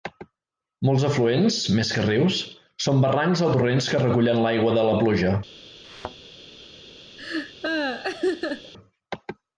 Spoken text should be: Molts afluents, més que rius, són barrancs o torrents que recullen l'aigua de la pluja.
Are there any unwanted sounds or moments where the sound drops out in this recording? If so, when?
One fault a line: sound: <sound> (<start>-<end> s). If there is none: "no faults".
sound: thud (5.8-6.2 s)
sound: laugh (7.2-8.7 s)